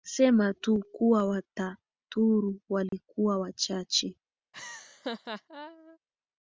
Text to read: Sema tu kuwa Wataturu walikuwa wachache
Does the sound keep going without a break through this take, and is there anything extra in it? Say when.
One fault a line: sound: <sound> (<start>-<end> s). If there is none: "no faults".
sound: dropout (2.9-2.9 s)
sound: laugh (4.5-6.0 s)